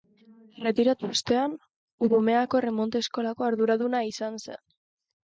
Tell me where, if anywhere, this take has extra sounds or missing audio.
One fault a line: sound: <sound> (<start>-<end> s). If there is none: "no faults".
no faults